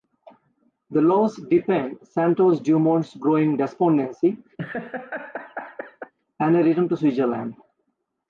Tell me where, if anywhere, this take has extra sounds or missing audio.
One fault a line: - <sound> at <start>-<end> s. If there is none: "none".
- laugh at 4.6-6.1 s